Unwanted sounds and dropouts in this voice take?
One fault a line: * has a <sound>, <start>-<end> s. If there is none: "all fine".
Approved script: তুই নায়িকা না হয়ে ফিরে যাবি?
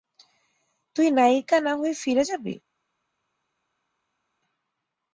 all fine